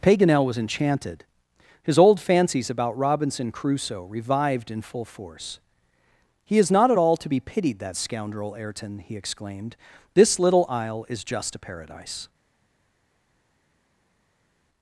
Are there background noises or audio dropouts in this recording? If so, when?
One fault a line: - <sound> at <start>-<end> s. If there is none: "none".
none